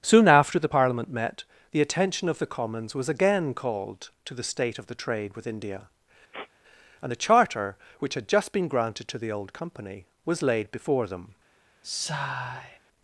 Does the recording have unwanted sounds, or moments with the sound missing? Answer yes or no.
yes